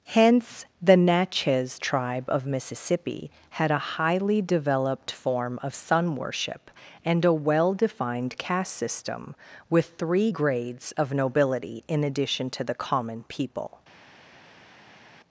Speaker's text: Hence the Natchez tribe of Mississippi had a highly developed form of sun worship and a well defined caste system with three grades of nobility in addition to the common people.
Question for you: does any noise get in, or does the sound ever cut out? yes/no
no